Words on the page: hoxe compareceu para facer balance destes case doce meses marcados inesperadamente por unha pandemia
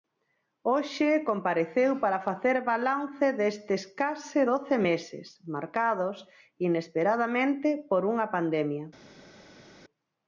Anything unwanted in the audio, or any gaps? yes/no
no